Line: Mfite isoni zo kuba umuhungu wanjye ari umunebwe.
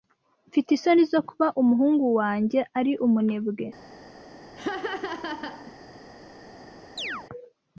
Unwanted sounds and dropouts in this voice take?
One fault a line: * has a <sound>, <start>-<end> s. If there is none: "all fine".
* has a laugh, 4.6-5.7 s
* has a chirp, 7.0-7.3 s